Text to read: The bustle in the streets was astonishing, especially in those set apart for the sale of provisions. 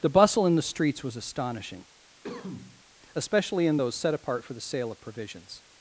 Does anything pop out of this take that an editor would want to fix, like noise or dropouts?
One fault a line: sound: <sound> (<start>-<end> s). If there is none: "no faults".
sound: cough (2.2-2.8 s)